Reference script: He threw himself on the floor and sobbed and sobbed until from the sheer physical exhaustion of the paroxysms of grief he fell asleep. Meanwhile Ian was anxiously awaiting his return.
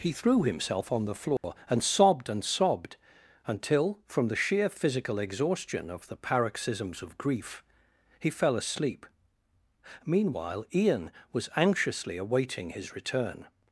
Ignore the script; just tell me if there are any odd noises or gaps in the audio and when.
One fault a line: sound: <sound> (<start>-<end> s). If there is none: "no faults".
sound: dropout (1.4-1.4 s)